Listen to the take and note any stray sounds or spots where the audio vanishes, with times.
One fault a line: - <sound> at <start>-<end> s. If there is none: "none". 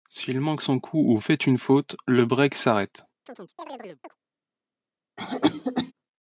- chirp at 3.3-4.2 s
- cough at 5.2-5.9 s